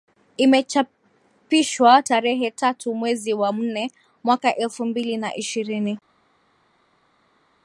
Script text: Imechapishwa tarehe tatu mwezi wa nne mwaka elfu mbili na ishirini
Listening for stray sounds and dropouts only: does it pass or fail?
pass